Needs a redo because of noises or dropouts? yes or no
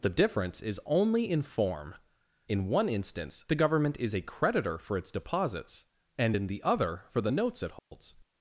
yes